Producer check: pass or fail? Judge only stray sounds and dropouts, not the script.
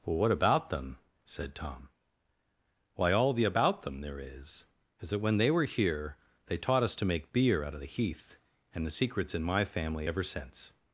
pass